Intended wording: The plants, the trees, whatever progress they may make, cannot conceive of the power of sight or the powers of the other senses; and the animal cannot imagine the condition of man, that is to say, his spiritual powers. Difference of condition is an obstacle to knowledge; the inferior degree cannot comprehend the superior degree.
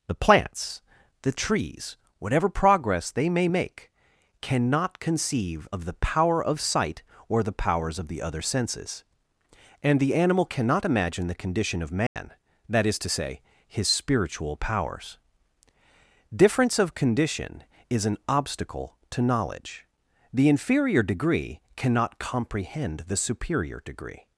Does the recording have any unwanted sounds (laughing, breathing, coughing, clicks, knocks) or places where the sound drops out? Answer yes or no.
yes